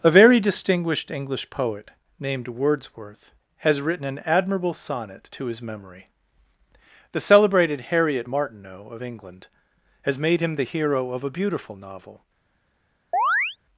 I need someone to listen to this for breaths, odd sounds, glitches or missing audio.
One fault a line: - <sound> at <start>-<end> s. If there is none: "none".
- chirp at 13.1-13.6 s